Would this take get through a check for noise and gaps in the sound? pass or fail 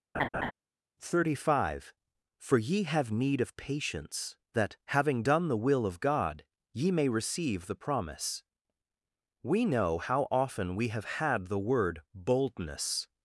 fail